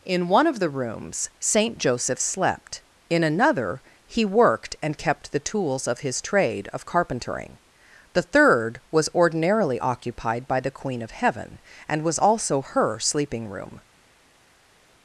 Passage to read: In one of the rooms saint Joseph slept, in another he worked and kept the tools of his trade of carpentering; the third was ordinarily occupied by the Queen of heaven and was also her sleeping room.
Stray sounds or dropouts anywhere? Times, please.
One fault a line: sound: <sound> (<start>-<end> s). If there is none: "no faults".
no faults